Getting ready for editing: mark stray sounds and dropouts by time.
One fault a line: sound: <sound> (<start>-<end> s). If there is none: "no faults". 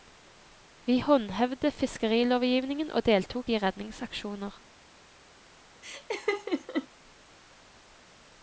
sound: laugh (5.8-6.9 s)